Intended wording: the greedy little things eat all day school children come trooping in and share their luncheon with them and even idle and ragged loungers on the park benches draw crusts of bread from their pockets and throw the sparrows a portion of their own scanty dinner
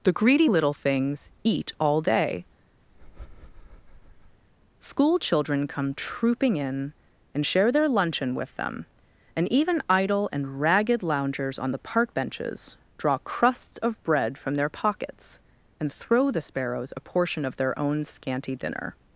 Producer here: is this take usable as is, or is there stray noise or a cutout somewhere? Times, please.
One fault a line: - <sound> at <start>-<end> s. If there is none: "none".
- breath at 2.9-4.4 s